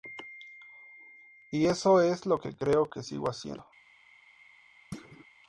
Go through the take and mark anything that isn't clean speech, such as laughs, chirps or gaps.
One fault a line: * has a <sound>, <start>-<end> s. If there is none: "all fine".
* has a thud, 4.9-5.3 s